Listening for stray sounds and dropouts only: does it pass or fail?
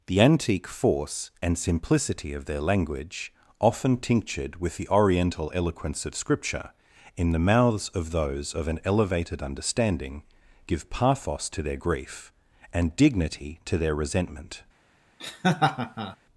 fail